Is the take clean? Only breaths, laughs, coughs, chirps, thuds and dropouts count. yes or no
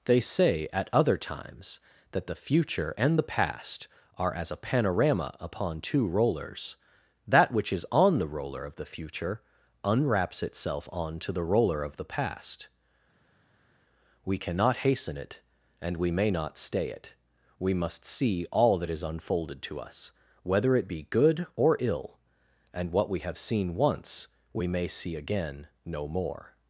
yes